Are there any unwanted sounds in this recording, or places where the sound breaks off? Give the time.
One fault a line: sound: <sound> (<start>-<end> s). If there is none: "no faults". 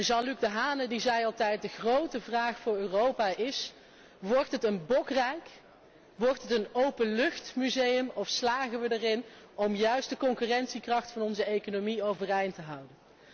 no faults